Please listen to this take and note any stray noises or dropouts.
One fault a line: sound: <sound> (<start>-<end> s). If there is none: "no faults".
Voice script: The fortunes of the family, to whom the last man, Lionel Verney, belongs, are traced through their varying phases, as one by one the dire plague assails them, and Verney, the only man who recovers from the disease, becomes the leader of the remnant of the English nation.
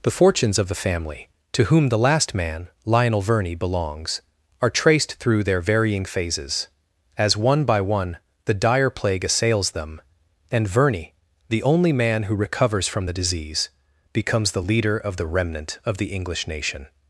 no faults